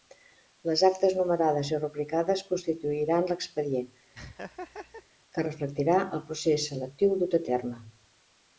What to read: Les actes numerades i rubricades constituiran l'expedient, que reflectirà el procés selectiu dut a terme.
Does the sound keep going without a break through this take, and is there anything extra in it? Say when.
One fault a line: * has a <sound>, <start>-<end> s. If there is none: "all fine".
* has a laugh, 4.1-5.1 s